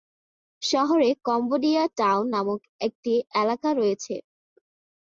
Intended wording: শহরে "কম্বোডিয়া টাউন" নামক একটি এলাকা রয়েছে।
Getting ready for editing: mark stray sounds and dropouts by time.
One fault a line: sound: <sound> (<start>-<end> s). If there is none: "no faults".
no faults